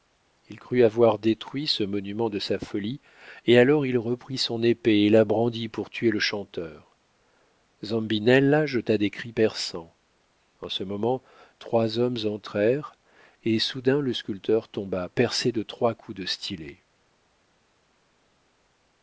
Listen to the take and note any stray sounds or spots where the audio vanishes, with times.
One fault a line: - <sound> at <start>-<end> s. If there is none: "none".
none